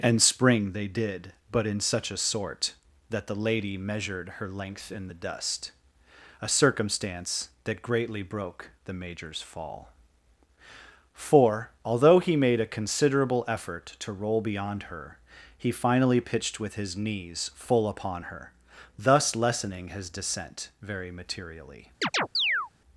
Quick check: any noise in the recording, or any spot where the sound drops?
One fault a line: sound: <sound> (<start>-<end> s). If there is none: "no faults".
sound: chirp (22.0-22.7 s)